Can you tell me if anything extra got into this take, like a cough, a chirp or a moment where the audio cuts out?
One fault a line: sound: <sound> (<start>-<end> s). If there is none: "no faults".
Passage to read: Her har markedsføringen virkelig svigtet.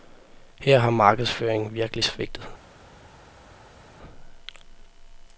no faults